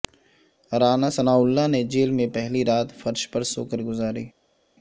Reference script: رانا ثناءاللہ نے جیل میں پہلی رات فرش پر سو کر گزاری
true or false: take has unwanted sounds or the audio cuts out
false